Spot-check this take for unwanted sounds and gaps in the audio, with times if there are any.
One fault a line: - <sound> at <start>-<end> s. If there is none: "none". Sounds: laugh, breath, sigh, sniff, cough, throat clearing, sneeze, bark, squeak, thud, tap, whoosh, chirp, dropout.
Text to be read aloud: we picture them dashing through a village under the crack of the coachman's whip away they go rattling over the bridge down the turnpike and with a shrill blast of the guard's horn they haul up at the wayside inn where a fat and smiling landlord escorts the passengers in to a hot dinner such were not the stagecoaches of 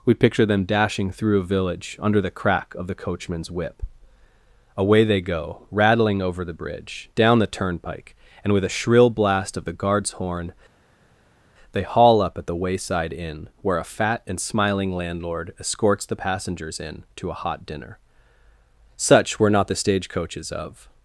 none